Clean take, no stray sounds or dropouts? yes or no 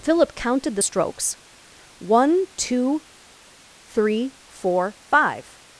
yes